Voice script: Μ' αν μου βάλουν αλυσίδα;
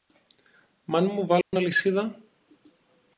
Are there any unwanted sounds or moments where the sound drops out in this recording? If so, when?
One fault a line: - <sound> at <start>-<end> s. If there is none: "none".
- dropout at 1.4-1.5 s